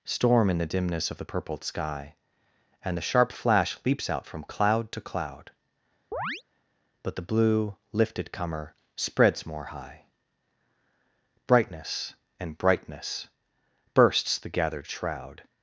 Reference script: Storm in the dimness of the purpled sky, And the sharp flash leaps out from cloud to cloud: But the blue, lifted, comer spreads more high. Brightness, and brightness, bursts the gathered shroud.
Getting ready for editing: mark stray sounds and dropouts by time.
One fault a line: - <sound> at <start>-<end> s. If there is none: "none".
- chirp at 6.1-6.4 s